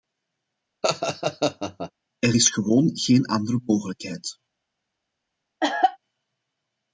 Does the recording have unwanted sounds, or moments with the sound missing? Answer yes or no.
yes